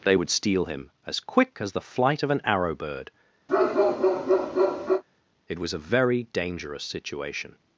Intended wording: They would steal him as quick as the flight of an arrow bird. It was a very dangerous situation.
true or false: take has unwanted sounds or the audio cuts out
true